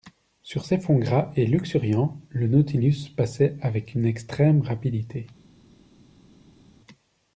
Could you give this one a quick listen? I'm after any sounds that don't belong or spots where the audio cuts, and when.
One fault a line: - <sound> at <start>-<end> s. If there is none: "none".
none